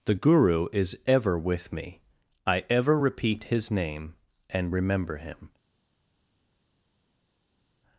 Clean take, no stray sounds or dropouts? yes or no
yes